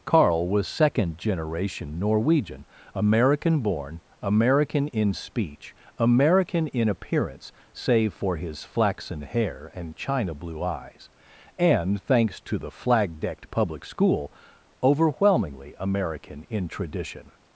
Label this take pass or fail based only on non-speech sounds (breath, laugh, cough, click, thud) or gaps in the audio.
pass